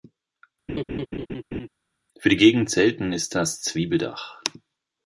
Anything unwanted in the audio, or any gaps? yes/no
yes